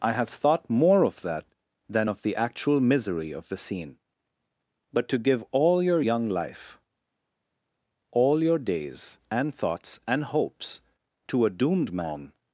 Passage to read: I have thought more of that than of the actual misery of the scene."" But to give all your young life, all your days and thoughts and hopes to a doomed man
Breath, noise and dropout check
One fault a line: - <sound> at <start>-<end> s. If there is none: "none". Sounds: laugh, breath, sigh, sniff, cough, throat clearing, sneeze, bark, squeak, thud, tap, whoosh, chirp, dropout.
none